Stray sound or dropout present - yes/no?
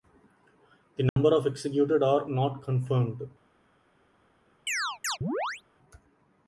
yes